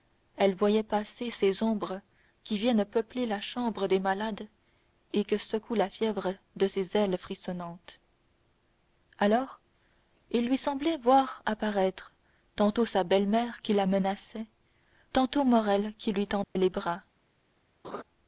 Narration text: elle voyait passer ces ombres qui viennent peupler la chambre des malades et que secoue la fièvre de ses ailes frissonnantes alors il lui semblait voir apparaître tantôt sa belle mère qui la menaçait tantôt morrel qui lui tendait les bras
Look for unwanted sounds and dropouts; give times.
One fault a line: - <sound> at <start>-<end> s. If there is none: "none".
- dropout at 16.4-16.6 s
- laugh at 17.8-18.0 s